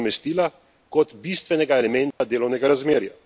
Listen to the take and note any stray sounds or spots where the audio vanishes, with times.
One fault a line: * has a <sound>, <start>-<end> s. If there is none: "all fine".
* has a dropout, 2.1-2.2 s